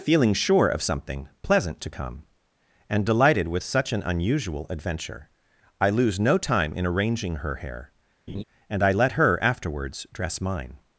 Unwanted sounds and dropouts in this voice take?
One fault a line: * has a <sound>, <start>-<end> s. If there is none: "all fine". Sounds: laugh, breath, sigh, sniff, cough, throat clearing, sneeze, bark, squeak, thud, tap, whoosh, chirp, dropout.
* has a laugh, 8.3-8.4 s